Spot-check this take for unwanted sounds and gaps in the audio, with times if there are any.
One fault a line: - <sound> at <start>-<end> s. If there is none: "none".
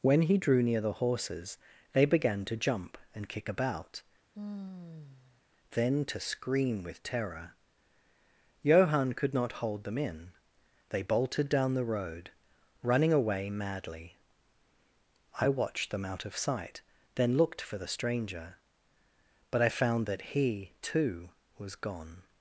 - sigh at 4.3-5.4 s